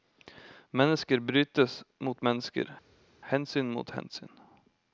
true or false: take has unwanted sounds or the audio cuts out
false